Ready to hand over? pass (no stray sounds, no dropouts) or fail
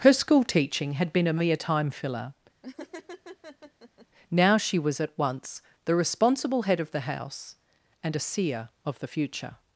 fail